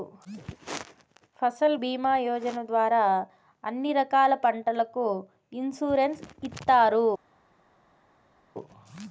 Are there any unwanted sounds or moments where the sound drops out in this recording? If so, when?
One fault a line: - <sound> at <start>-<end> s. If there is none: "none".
none